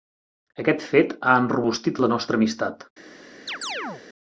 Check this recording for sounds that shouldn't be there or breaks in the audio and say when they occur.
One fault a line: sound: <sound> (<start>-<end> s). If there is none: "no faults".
sound: chirp (3.5-4.0 s)